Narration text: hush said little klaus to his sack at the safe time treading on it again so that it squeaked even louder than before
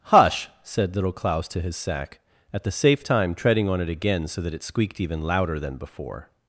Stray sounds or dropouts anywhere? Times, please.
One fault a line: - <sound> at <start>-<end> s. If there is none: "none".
none